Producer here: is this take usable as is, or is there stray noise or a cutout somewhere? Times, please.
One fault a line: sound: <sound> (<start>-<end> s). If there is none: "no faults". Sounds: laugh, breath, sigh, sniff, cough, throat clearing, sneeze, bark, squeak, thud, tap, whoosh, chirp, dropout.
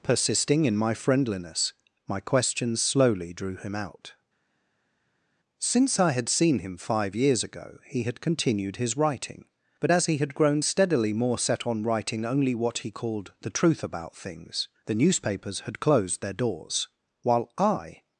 no faults